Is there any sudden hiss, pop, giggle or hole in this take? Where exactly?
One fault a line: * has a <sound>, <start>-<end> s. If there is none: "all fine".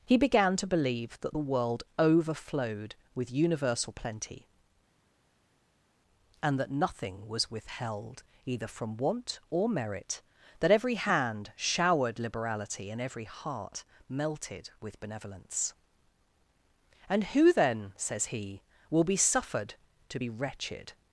all fine